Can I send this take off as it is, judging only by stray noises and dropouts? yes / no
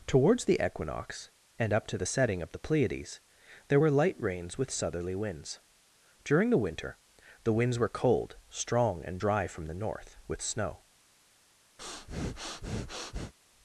no